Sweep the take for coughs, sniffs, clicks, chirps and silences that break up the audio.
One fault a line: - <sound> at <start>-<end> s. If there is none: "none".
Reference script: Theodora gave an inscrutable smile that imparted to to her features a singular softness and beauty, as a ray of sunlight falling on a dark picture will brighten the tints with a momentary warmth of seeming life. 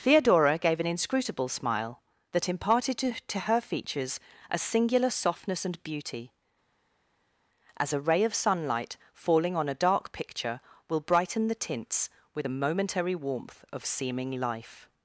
none